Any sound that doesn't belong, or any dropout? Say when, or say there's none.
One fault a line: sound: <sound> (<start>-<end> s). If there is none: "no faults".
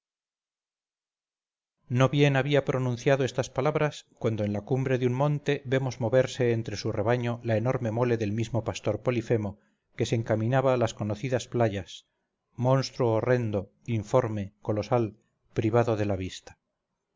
no faults